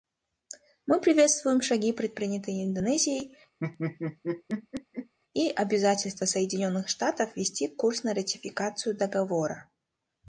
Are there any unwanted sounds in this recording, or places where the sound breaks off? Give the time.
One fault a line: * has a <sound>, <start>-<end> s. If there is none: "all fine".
* has a laugh, 3.6-5.1 s